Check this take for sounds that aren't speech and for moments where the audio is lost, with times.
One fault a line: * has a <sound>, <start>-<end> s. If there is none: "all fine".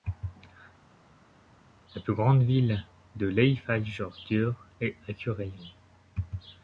all fine